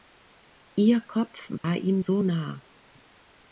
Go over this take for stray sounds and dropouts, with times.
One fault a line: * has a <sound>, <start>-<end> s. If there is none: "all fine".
* has a dropout, 1.6-1.6 s